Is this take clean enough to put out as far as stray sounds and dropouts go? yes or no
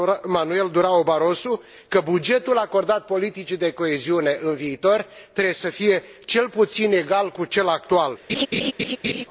no